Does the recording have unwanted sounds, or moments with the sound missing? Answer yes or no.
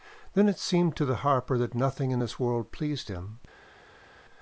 no